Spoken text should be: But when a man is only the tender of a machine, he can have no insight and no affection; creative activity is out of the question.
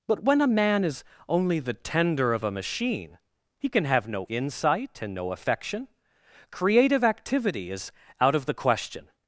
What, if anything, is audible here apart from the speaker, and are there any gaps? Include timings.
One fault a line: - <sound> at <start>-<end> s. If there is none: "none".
none